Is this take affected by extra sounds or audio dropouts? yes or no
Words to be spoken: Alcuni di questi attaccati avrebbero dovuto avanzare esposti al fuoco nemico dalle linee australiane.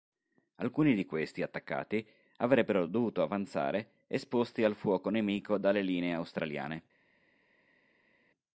no